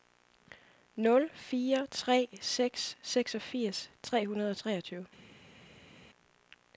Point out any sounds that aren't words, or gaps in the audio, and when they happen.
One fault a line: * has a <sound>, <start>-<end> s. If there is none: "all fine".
all fine